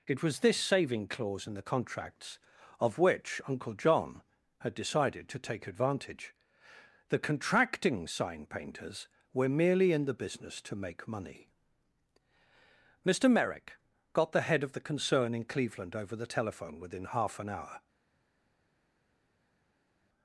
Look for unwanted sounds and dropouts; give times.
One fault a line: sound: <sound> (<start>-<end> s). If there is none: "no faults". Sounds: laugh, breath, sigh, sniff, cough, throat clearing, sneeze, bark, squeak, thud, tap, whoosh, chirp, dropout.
no faults